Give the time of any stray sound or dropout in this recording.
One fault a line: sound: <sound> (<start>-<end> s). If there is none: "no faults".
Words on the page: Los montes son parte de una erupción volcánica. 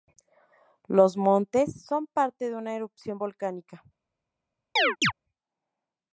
sound: chirp (4.8-5.1 s)